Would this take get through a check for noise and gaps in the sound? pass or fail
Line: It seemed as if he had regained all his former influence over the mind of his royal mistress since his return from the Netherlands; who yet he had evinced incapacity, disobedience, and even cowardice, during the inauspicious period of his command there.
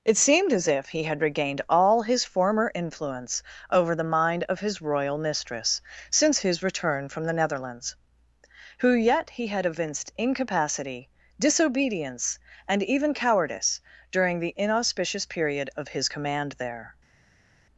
pass